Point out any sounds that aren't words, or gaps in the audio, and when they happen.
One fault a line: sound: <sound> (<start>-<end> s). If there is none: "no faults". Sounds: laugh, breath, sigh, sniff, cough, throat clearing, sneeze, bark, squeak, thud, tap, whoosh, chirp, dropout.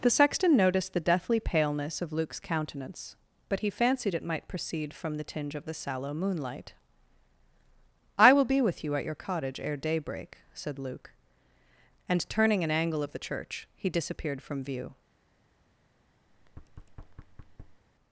sound: thud (16.3-17.8 s)